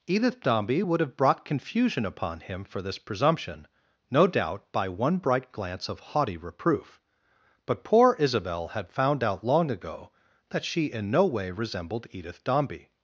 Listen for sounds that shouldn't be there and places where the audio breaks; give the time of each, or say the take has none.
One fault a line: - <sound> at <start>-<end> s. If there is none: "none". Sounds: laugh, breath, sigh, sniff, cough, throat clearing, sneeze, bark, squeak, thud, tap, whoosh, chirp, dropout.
none